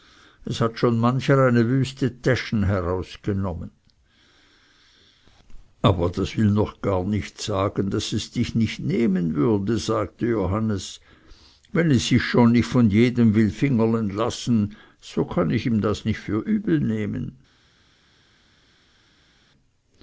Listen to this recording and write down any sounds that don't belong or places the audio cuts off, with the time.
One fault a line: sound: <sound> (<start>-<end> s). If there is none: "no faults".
no faults